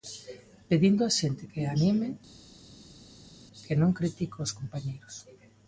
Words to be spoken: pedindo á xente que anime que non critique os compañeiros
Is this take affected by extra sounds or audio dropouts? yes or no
no